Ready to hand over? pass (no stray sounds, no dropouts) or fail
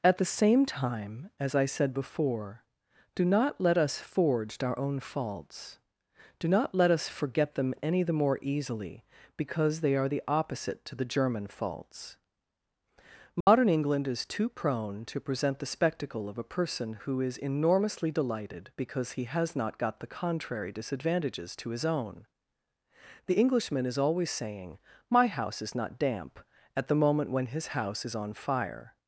fail